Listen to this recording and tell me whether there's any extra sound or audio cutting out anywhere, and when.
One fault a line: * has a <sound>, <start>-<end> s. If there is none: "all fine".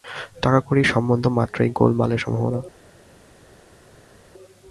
all fine